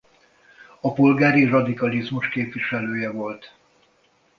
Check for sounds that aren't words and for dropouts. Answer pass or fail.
pass